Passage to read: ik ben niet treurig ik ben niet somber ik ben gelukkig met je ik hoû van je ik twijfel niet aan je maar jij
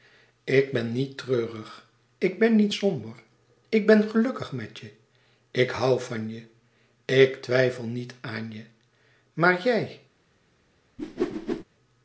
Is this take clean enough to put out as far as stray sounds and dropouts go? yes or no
no